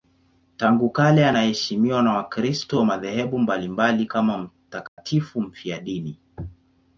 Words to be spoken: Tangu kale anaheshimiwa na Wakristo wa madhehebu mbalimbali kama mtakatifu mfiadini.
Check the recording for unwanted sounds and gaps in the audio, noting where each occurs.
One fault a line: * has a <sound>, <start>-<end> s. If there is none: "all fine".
* has a dropout, 4.9-5.0 s